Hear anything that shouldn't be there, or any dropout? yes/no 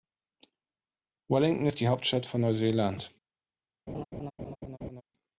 yes